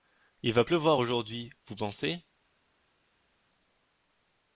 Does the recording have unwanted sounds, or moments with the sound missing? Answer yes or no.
no